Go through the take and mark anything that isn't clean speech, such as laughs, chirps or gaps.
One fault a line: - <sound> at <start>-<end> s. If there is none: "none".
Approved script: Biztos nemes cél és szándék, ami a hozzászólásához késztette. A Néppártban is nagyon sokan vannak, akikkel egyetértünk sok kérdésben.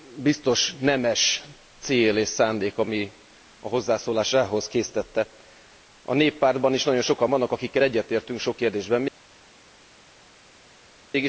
none